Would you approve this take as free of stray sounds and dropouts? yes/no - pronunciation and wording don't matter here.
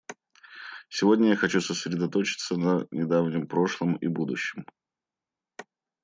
yes